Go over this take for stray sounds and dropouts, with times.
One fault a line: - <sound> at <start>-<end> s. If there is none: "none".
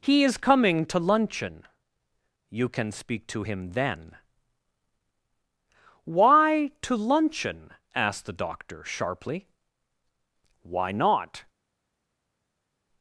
none